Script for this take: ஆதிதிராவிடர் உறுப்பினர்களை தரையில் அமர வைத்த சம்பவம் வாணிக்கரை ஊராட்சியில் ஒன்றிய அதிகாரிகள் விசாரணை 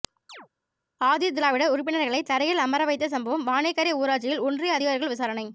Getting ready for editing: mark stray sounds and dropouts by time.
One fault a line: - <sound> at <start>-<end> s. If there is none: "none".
- chirp at 0.3-0.5 s